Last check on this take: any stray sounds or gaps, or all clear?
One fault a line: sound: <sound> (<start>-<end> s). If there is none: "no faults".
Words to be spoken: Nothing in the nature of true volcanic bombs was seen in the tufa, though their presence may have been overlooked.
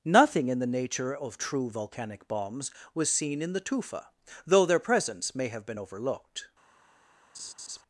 sound: laugh (7.3-7.8 s)